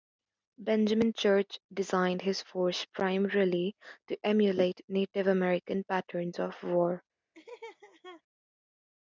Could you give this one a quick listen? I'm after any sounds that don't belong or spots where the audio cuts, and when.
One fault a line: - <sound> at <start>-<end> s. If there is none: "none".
- laugh at 7.3-8.2 s